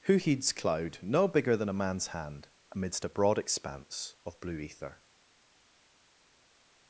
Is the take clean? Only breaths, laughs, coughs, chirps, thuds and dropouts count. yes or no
yes